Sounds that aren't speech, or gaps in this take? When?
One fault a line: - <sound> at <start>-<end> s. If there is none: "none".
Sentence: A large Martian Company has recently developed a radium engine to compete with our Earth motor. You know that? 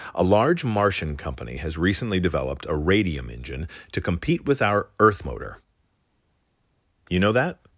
none